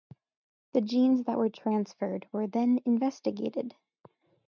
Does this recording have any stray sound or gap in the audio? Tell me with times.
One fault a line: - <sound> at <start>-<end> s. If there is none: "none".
none